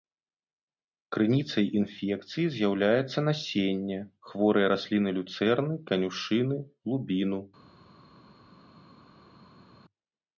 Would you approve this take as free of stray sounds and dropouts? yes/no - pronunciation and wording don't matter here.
yes